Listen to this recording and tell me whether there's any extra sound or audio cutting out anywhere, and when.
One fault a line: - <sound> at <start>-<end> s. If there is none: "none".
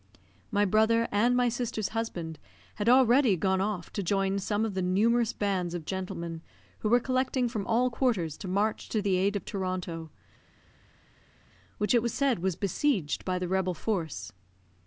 none